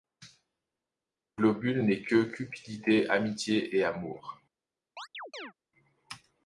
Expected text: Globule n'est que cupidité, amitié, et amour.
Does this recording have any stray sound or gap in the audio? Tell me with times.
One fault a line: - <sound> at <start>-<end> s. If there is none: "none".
- chirp at 5.0-5.5 s